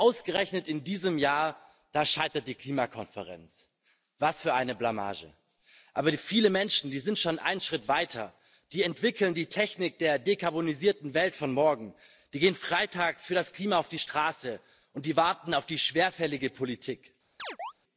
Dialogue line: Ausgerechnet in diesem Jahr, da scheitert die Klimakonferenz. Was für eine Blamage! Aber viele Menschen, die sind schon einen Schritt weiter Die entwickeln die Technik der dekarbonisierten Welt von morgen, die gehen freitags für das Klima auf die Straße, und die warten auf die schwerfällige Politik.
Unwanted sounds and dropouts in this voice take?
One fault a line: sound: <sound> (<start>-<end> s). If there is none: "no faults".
sound: chirp (17.4-17.7 s)